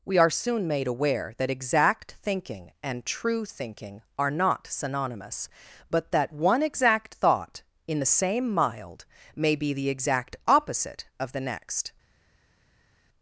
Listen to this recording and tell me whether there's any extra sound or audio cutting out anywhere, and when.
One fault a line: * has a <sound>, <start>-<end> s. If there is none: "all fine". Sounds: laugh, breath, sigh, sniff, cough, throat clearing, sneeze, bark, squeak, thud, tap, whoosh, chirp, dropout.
all fine